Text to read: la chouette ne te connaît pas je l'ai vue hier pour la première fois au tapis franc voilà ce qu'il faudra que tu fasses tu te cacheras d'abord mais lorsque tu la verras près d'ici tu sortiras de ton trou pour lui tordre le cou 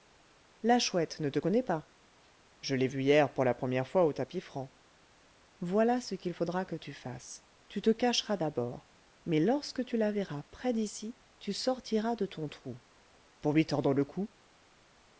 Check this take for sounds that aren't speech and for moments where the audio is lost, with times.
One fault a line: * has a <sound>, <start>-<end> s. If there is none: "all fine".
all fine